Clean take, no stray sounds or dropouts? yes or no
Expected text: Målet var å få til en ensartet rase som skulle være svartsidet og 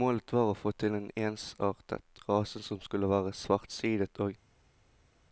yes